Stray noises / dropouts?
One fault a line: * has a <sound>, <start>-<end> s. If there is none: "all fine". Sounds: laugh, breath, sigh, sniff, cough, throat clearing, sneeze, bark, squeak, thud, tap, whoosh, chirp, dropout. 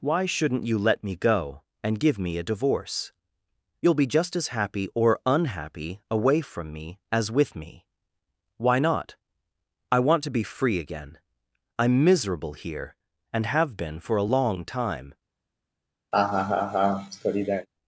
* has a laugh, 16.1-17.7 s